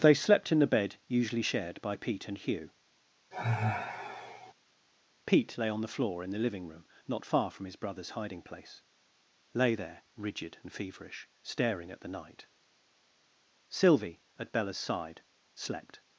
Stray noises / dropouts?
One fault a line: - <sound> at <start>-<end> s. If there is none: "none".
- sigh at 3.3-4.5 s